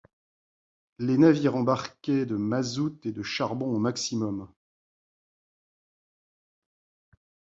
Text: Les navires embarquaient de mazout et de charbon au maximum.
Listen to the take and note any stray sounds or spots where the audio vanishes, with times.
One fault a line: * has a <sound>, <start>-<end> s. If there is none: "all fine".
all fine